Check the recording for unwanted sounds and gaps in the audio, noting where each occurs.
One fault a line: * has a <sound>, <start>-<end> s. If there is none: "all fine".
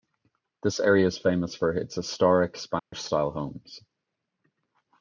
* has a dropout, 2.8-2.9 s